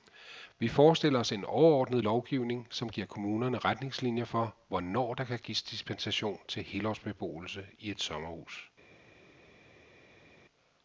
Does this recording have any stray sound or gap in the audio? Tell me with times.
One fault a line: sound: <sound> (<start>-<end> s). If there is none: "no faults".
no faults